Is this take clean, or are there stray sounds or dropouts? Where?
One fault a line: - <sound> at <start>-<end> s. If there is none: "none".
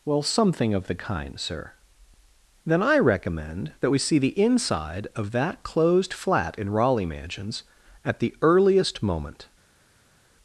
none